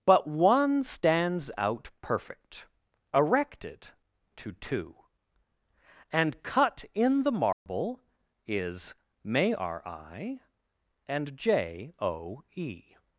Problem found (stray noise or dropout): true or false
true